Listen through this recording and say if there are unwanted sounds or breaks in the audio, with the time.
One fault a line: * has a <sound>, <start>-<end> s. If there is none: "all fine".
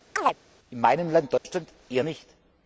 * has a chirp, 0.2-0.4 s
* has a dropout, 1.4-1.4 s